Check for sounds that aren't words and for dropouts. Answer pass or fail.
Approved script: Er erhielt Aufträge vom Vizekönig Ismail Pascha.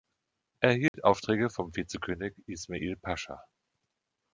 fail